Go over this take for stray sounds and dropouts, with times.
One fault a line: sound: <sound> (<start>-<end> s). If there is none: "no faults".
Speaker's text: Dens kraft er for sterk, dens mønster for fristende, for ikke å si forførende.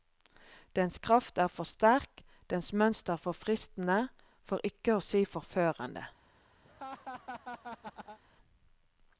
sound: laugh (6.6-8.2 s)